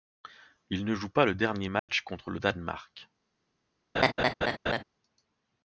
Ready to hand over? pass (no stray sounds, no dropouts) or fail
fail